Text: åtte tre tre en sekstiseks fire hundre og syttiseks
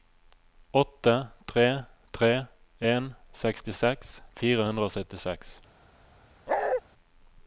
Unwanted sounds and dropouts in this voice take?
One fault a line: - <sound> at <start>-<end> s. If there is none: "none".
- bark at 6.5-6.8 s